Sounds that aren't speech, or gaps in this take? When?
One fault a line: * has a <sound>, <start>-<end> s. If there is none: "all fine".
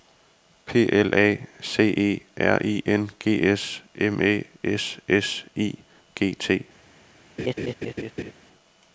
* has a laugh, 7.4-8.3 s